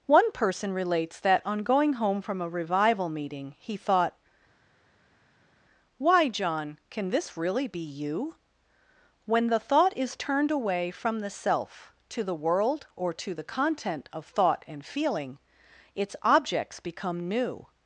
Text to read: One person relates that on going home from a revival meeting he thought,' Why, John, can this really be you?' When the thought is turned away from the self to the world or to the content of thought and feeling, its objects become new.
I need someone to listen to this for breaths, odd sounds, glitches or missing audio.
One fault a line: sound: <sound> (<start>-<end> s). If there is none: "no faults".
no faults